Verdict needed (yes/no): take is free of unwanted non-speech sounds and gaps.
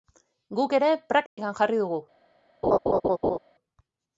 no